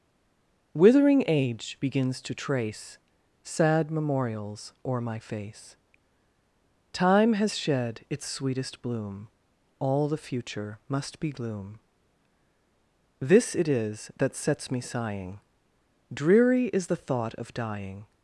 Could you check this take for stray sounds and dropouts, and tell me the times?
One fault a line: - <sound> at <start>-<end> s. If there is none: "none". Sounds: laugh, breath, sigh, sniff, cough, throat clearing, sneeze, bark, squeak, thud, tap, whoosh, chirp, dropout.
none